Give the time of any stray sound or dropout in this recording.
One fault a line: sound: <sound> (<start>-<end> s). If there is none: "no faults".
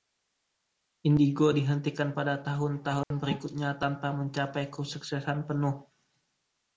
sound: dropout (3.0-3.1 s)